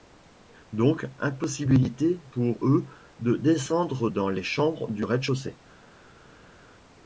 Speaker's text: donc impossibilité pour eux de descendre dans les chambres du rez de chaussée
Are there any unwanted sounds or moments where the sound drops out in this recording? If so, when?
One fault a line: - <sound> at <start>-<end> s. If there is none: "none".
none